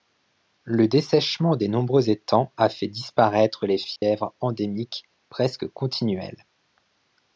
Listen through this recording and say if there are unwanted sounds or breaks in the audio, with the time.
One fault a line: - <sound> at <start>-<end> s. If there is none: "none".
- dropout at 4.0-4.0 s